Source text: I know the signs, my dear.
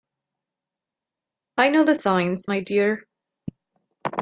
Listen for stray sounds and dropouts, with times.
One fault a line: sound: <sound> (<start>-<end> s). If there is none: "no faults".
no faults